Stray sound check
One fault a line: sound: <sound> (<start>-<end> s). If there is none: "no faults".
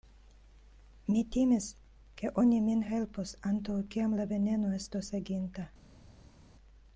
no faults